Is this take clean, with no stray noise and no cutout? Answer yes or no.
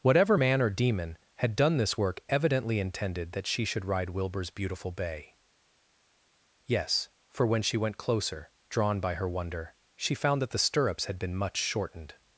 yes